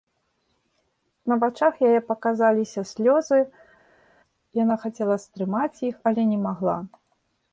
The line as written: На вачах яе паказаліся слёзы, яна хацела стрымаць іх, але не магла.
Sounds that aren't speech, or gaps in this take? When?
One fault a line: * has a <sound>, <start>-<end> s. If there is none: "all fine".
all fine